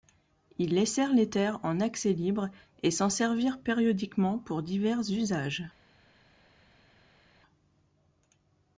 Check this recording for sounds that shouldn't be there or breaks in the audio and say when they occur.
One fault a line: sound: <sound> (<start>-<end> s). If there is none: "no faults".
no faults